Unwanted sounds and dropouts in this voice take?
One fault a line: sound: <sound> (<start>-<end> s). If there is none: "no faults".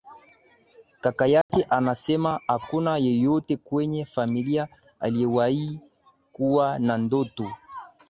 sound: dropout (1.4-1.5 s)